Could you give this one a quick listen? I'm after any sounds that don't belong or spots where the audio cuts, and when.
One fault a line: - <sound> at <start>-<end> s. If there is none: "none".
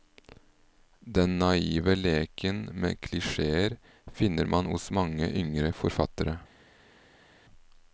none